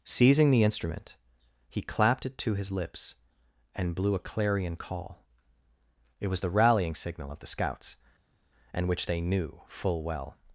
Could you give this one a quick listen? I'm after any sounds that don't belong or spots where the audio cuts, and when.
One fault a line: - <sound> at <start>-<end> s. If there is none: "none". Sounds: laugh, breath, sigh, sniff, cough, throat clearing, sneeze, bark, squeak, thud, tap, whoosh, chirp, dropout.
none